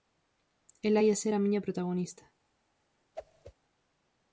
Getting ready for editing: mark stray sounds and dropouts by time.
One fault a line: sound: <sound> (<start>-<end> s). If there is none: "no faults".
sound: whoosh (3.1-3.5 s)